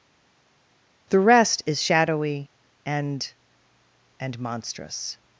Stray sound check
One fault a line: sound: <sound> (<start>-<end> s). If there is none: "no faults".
no faults